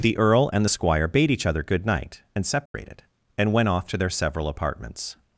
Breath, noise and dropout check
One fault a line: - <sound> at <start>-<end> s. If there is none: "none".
- dropout at 2.7-2.7 s